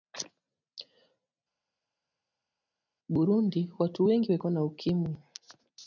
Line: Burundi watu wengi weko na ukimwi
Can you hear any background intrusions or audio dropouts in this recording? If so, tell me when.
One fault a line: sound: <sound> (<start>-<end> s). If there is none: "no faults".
no faults